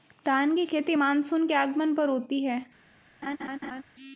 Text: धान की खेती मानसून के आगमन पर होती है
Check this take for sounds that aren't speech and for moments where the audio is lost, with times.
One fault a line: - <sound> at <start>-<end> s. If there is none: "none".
- laugh at 3.2-3.8 s